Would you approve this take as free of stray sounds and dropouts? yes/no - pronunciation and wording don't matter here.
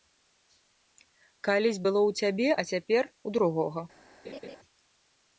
no